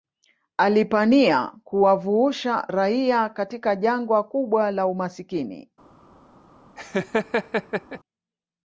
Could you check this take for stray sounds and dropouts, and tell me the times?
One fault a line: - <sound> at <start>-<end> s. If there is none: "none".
- laugh at 6.8-8.0 s